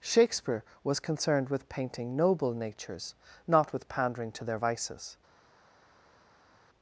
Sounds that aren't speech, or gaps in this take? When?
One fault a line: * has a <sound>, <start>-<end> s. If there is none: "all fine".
all fine